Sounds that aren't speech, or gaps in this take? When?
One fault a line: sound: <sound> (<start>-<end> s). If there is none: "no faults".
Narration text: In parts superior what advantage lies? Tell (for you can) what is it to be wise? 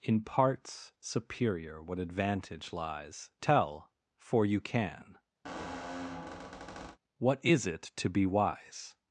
sound: squeak (5.4-7.0 s)